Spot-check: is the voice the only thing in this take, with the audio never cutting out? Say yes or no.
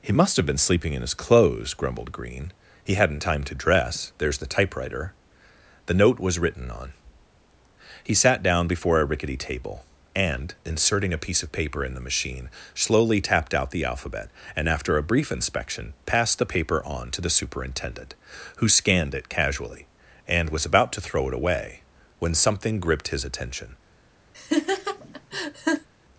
no